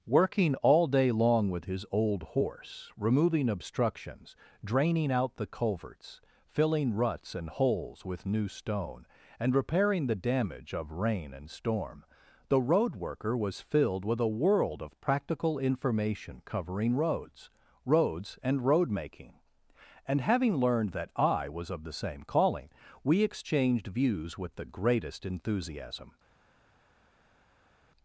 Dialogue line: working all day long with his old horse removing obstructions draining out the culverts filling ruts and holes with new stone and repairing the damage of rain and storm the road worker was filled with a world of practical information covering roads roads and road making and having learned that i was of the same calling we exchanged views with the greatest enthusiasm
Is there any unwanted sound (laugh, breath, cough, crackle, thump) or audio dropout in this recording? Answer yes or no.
no